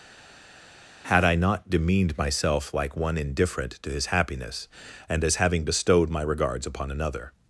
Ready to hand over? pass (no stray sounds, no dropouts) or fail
pass